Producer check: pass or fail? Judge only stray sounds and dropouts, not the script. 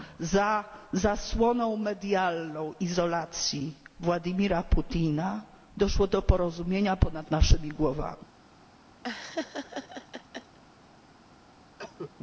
fail